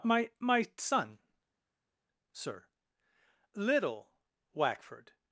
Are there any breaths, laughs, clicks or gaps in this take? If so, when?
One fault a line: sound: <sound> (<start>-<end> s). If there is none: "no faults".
no faults